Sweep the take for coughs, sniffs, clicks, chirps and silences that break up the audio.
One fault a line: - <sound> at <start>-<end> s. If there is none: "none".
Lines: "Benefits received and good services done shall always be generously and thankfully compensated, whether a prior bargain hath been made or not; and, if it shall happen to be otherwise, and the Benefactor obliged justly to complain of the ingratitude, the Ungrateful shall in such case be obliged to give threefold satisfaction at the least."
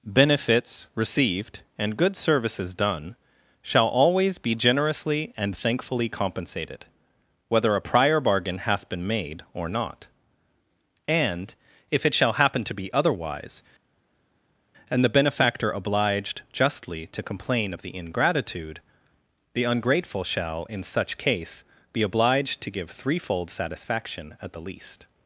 none